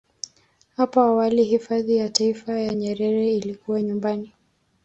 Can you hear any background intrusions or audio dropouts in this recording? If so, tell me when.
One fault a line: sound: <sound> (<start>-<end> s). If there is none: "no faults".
no faults